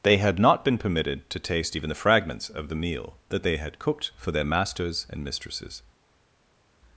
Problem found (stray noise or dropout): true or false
false